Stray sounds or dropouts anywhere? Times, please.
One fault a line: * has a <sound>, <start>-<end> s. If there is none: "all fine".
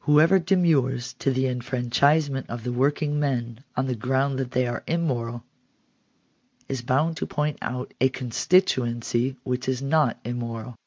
all fine